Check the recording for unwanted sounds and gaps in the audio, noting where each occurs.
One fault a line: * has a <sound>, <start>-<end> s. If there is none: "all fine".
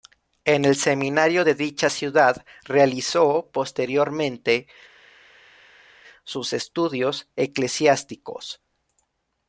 all fine